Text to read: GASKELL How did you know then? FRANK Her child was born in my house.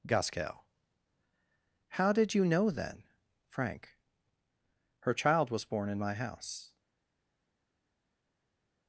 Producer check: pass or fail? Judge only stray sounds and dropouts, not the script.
pass